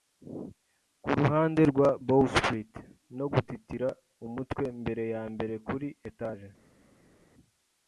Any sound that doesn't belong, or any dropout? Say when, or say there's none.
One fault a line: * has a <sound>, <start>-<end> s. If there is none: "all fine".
all fine